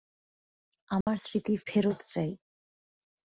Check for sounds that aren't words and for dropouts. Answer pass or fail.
fail